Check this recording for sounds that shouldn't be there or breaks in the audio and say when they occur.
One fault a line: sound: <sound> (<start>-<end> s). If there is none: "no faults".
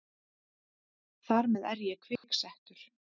sound: dropout (2.2-2.2 s)